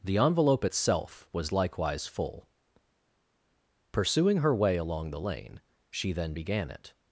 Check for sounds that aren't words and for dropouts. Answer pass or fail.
pass